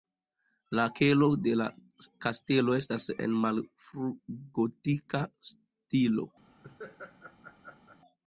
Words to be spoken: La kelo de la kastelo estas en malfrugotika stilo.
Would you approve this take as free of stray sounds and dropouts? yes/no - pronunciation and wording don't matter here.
no